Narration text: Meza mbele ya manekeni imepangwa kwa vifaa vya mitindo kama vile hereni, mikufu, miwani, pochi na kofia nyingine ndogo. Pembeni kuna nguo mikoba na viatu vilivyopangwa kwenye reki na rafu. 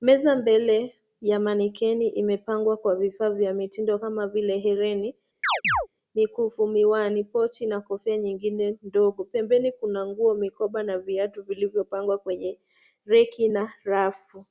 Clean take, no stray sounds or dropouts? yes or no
no